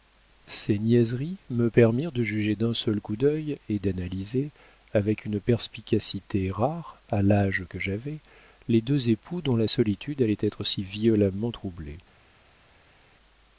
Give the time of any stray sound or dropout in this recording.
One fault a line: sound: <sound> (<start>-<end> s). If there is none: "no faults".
no faults